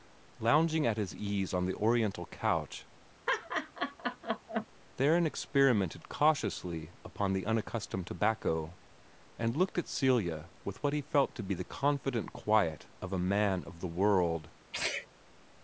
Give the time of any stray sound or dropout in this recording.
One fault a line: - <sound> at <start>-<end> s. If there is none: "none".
- laugh at 3.3-4.7 s
- sneeze at 14.7-15.1 s